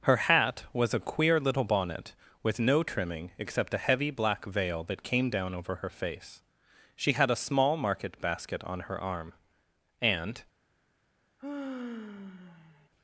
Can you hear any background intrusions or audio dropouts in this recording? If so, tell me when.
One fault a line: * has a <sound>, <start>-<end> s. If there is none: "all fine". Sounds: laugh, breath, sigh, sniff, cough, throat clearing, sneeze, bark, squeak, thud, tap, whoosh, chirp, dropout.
* has a sigh, 11.4-12.9 s